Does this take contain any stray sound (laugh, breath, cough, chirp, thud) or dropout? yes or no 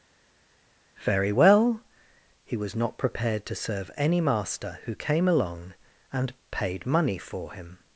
no